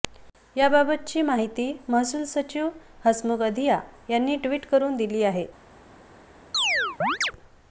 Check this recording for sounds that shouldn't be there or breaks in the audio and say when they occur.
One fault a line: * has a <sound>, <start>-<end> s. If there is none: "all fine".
* has a chirp, 6.5-7.3 s